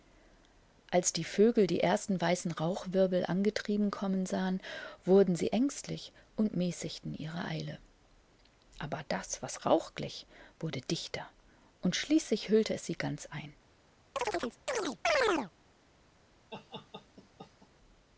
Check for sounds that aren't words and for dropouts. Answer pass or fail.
fail